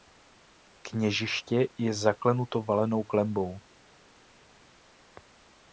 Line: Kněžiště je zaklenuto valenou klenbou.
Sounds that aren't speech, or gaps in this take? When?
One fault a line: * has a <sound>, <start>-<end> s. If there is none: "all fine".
all fine